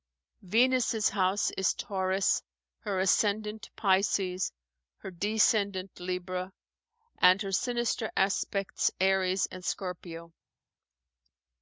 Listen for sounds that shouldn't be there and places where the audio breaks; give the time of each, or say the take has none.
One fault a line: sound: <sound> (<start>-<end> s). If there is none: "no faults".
no faults